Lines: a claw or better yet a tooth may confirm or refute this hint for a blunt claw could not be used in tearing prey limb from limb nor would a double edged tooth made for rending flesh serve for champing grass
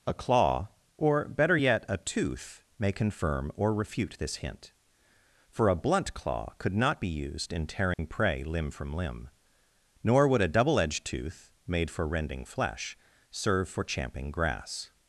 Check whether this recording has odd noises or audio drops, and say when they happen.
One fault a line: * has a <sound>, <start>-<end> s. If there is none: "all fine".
* has a dropout, 7.9-8.0 s